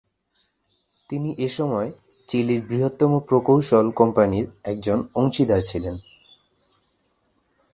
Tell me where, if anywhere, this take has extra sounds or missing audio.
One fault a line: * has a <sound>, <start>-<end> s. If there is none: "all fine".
all fine